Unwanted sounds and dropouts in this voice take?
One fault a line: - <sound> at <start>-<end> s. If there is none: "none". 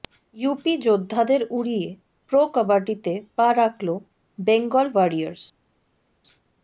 none